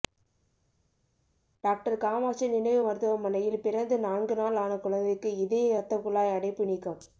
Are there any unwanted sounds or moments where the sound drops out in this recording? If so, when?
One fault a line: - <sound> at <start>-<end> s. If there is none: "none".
none